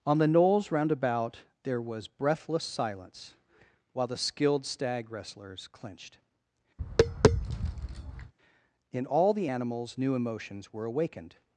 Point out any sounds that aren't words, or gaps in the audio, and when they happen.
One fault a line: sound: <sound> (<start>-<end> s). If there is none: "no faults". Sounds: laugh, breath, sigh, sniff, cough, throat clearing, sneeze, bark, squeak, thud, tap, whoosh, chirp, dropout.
sound: tap (6.8-8.3 s)